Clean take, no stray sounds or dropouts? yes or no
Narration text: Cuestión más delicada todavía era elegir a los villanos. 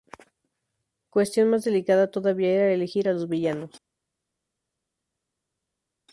yes